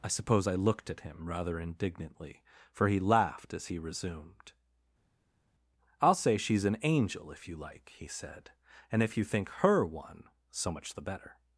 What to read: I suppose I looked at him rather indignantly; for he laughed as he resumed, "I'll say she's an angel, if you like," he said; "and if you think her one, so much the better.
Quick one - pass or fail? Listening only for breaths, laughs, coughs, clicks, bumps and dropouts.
pass